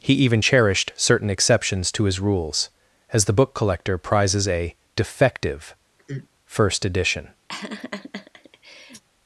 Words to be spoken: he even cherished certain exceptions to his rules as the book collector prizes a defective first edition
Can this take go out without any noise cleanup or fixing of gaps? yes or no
no